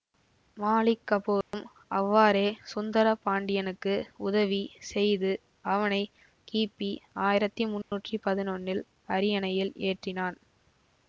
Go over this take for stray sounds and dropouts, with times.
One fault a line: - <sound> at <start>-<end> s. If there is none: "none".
- dropout at 1.4-1.5 s
- dropout at 7.8-7.9 s